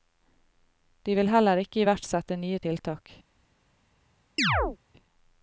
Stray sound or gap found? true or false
true